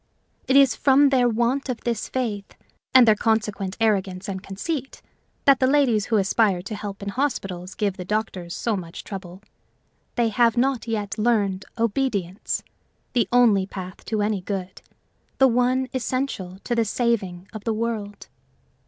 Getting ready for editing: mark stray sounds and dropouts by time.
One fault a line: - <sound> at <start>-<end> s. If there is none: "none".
none